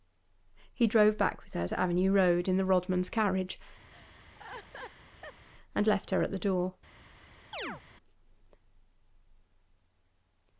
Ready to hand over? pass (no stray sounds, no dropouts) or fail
fail